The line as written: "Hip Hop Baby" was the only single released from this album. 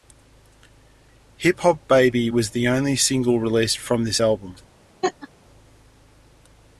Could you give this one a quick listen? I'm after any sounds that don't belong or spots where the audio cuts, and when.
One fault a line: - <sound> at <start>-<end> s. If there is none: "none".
- laugh at 5.0-5.3 s